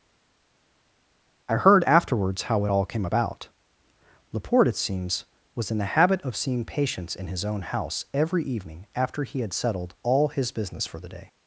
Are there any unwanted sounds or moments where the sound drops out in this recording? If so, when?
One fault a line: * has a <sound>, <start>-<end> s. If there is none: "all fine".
all fine